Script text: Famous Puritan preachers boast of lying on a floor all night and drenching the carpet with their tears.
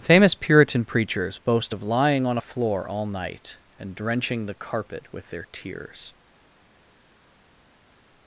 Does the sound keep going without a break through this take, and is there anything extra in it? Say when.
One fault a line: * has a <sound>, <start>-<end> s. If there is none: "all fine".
all fine